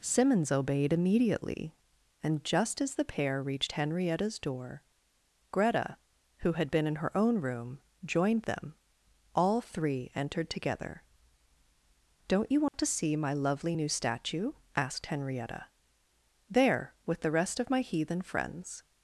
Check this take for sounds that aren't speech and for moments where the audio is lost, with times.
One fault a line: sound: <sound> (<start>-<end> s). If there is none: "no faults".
sound: dropout (12.7-12.7 s)